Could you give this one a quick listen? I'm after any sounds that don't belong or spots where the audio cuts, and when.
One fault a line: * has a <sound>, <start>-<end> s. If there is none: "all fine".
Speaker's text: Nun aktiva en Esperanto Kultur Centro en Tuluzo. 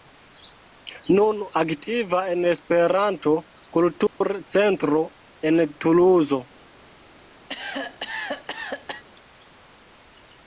* has a dropout, 4.1-4.2 s
* has a cough, 7.5-9.0 s